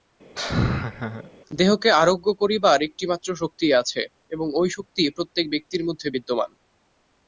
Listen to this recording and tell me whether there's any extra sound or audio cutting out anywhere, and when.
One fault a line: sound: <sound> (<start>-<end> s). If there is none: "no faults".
sound: laugh (0.4-1.3 s)